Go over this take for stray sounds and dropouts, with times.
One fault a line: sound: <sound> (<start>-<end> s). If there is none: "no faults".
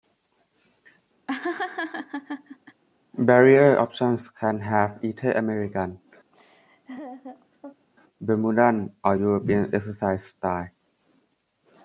sound: laugh (1.3-2.8 s)
sound: laugh (6.3-7.9 s)